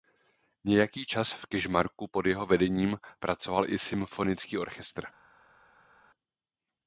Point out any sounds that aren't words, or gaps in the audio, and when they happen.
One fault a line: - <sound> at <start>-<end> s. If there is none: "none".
none